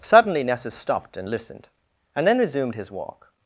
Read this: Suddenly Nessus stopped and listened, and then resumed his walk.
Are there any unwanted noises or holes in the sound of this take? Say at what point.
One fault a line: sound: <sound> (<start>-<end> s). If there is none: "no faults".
no faults